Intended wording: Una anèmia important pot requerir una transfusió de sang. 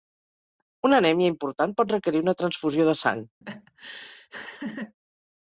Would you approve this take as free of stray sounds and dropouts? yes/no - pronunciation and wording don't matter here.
no